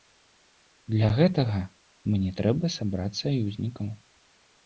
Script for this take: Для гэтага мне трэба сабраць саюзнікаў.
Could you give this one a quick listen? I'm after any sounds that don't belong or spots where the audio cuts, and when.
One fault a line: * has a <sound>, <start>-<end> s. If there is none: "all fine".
all fine